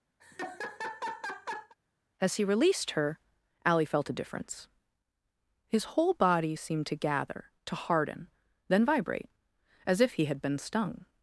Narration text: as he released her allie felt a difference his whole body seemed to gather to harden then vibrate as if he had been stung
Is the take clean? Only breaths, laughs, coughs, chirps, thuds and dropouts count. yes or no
no